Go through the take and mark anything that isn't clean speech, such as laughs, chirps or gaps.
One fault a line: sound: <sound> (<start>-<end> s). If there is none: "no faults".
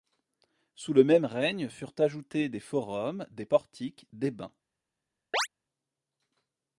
sound: chirp (5.3-5.5 s)